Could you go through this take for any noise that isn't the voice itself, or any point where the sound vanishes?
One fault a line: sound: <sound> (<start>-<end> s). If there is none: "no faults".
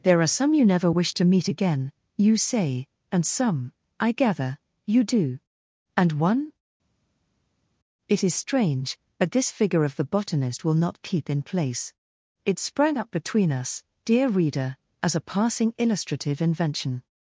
no faults